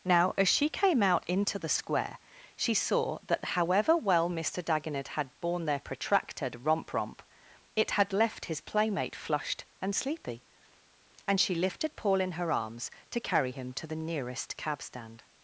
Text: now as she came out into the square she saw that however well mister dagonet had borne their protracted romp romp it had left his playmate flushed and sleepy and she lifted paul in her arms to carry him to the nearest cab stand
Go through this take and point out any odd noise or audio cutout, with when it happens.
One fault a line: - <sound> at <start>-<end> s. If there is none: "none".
none